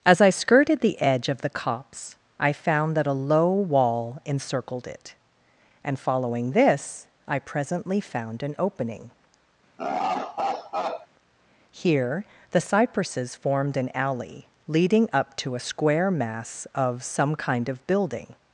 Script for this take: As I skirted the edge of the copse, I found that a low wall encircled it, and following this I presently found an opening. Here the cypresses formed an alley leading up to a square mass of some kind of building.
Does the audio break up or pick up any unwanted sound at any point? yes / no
yes